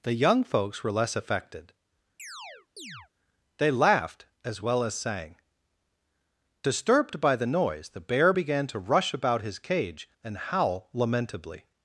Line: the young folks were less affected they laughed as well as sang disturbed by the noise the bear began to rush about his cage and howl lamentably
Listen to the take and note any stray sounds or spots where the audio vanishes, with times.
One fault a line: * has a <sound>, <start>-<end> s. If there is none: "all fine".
* has a chirp, 2.2-3.1 s